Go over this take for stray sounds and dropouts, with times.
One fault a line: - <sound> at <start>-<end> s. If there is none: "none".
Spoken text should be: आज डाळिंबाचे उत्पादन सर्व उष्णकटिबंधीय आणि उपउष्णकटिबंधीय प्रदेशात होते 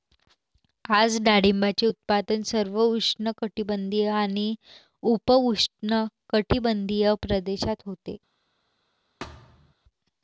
- thud at 9.2-9.7 s